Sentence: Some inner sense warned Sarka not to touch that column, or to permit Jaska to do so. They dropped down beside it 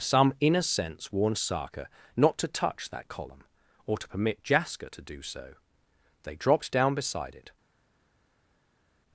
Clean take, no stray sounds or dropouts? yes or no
yes